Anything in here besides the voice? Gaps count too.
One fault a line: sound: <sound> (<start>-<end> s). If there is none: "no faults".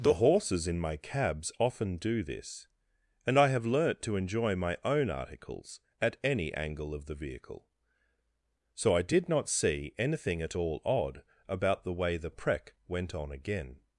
no faults